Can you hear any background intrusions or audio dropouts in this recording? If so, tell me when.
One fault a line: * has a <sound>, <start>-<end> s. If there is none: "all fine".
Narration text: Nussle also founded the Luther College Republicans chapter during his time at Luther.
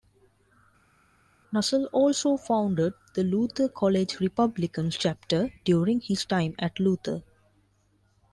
all fine